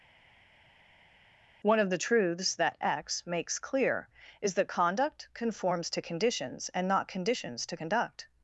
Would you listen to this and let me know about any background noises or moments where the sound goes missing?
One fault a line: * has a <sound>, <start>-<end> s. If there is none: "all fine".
all fine